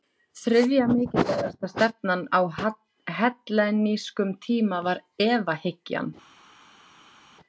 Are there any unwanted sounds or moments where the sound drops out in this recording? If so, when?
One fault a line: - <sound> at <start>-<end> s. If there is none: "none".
none